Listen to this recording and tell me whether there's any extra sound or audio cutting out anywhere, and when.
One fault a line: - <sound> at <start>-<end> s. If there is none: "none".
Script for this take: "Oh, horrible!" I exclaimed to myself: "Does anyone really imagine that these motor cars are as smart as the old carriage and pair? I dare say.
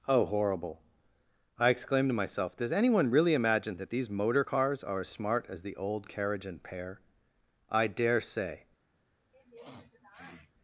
- sniff at 9.3-10.5 s